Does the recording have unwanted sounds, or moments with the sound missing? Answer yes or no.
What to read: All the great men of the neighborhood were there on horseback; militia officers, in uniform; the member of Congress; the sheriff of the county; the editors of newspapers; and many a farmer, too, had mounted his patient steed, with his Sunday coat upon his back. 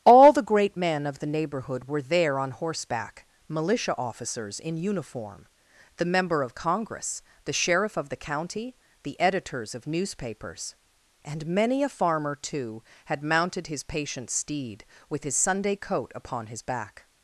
no